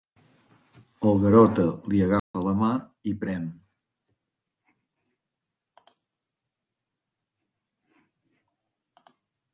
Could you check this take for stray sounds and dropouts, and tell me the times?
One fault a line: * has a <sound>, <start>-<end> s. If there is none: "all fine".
* has a dropout, 2.2-2.3 s